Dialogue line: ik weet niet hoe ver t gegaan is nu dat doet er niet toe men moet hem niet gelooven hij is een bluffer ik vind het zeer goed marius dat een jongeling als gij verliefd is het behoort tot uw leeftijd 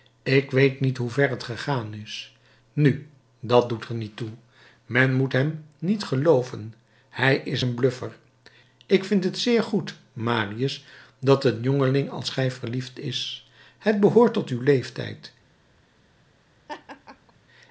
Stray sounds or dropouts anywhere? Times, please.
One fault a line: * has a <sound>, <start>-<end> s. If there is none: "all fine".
* has a laugh, 16.7-17.3 s